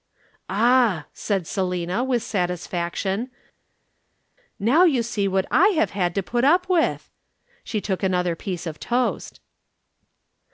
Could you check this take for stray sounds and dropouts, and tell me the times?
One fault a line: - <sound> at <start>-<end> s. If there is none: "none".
none